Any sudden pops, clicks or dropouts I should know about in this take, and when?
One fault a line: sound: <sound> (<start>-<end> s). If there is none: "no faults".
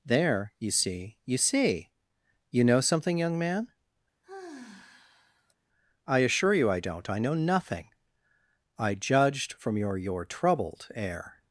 sound: sigh (4.2-5.5 s)